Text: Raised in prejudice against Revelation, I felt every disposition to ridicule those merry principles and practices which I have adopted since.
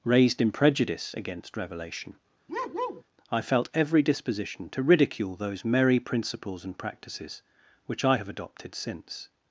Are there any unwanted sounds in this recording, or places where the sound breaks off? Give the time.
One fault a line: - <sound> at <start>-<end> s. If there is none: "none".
- bark at 2.5-3.0 s